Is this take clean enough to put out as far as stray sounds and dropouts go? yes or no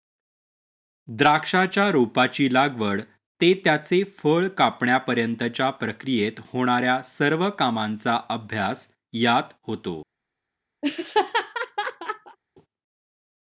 no